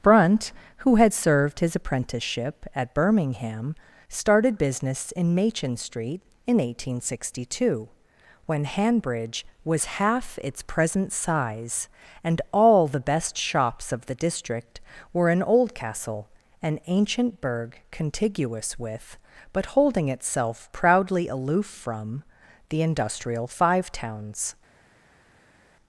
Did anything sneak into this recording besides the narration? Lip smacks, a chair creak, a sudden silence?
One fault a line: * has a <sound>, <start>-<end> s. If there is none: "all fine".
all fine